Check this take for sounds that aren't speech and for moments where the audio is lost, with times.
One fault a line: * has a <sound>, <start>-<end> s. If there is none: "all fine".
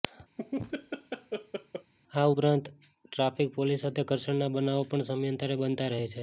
* has a laugh, 0.4-1.9 s